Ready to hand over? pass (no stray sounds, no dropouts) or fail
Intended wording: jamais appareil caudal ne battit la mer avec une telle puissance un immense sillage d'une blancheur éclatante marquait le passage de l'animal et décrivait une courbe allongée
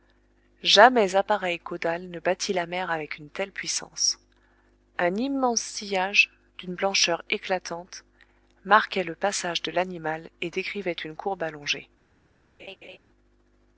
fail